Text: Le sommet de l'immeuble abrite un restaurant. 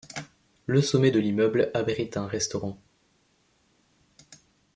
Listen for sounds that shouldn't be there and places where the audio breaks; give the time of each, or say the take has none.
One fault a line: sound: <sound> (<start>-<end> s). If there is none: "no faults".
no faults